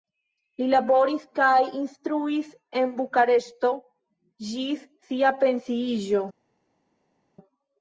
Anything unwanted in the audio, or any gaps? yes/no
no